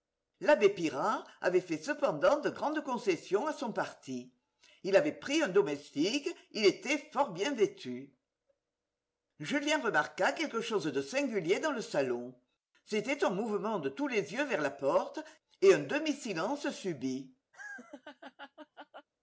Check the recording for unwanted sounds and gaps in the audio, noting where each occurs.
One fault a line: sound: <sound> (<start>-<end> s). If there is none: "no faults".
sound: laugh (17.5-19.1 s)